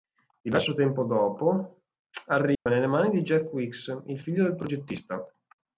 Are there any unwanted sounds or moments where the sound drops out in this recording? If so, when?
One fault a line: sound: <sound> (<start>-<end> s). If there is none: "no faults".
sound: dropout (2.5-2.7 s)